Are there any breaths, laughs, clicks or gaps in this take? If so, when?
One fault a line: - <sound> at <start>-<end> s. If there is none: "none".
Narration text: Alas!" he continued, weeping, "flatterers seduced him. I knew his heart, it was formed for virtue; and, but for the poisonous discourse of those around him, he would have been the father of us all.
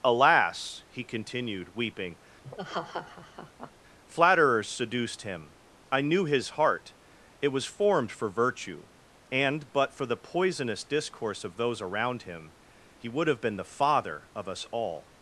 - laugh at 2.4-3.7 s